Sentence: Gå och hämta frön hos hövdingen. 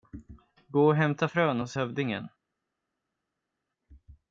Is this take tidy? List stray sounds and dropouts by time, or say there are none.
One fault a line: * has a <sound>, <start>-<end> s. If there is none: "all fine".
all fine